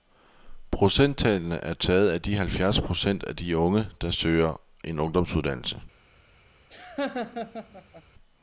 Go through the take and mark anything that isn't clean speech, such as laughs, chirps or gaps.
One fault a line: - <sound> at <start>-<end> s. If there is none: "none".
- laugh at 6.7-8.0 s